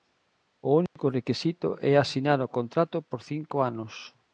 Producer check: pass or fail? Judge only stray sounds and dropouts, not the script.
fail